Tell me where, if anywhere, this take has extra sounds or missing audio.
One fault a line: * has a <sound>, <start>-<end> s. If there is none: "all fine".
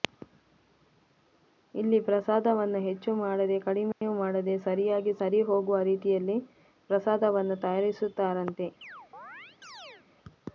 * has a dropout, 3.9-4.0 s
* has a chirp, 8.8-10.1 s